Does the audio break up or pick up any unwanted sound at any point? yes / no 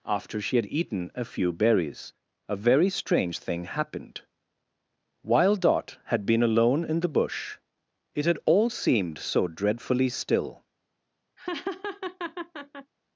yes